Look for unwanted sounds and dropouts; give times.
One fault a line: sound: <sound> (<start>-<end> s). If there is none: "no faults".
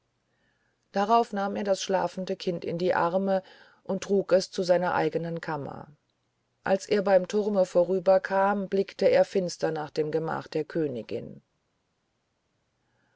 no faults